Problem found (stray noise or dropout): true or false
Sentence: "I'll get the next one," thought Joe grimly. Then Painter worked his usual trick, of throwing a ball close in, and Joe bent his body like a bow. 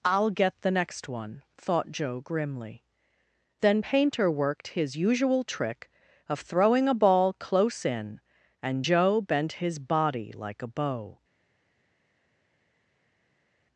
false